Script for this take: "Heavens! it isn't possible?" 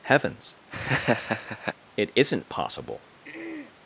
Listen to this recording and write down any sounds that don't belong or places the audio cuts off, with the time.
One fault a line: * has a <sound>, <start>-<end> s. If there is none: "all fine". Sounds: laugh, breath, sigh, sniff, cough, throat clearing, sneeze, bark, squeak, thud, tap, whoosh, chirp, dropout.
* has a laugh, 0.7-1.8 s
* has a throat clearing, 3.2-3.7 s